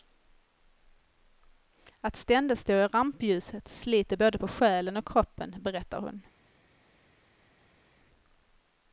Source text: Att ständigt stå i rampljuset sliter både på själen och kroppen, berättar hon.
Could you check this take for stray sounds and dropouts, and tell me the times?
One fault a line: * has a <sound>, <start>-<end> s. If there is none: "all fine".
all fine